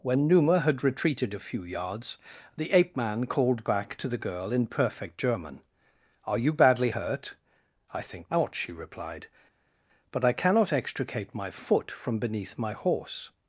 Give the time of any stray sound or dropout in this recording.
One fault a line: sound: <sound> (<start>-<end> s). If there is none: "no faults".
no faults